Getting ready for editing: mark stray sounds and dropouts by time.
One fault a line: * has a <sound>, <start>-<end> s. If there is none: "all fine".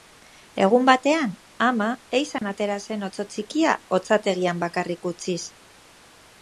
* has a dropout, 2.4-2.4 s